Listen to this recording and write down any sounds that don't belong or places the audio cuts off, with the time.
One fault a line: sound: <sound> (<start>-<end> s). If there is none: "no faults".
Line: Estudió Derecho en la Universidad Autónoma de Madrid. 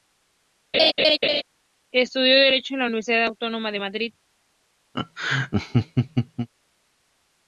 sound: laugh (0.7-1.4 s)
sound: laugh (4.9-6.5 s)